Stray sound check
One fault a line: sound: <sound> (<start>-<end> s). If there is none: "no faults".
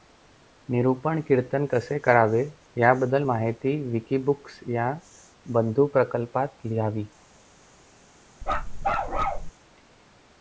sound: bark (8.4-9.5 s)